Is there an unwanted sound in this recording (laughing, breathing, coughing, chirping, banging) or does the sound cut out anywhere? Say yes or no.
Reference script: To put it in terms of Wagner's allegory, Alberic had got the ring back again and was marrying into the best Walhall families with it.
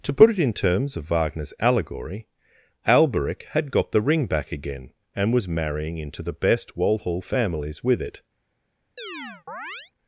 yes